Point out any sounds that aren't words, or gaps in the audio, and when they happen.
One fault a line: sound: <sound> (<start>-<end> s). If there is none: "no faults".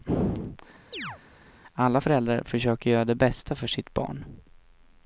sound: chirp (0.9-1.2 s)